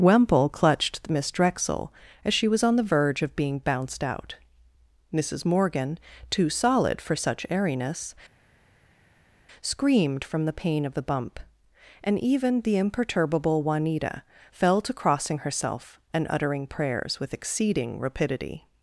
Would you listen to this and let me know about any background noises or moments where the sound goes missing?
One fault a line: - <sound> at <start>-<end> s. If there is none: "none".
none